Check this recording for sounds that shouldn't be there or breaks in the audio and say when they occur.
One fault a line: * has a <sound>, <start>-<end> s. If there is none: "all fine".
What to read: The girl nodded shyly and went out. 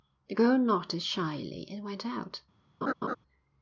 * has a laugh, 2.8-3.2 s